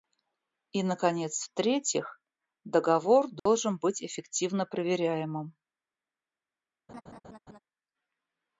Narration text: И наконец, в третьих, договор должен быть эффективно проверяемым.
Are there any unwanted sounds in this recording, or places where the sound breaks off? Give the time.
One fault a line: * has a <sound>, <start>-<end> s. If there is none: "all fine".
* has a dropout, 3.4-3.5 s
* has a laugh, 6.9-7.6 s